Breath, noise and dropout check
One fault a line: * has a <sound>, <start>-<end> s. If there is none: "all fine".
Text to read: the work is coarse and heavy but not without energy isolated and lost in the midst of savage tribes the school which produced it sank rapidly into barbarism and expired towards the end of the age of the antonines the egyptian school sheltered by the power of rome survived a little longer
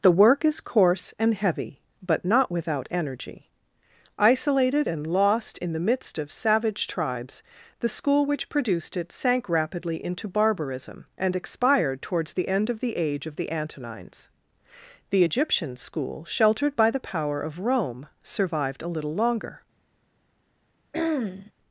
* has a throat clearing, 20.9-21.5 s